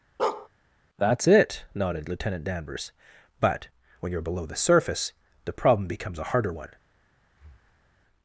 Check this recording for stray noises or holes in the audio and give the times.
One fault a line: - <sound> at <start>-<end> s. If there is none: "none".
- bark at 0.2-0.5 s
- breath at 7.3-8.0 s